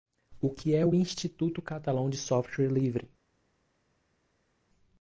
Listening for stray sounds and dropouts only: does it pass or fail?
pass